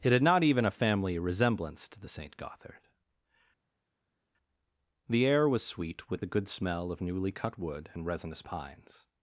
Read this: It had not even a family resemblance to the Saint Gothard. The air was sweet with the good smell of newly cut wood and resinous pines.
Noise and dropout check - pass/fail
pass